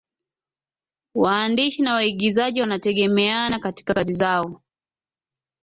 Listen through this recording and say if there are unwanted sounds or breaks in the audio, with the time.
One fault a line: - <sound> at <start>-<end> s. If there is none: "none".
none